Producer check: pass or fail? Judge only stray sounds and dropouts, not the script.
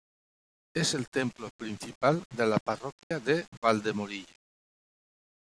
fail